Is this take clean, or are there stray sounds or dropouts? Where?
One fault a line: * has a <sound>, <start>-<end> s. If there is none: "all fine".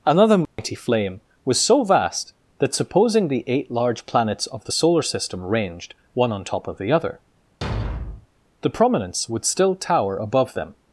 * has a dropout, 0.5-0.6 s
* has a thud, 7.6-8.3 s